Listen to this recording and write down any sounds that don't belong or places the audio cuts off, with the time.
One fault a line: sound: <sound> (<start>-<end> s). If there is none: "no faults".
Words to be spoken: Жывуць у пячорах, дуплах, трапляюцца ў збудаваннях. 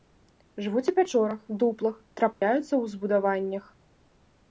sound: dropout (2.3-2.4 s)